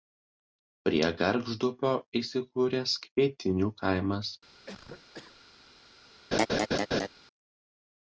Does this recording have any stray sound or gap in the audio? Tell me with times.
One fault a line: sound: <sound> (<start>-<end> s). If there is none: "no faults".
sound: cough (4.7-5.4 s)
sound: laugh (6.3-7.1 s)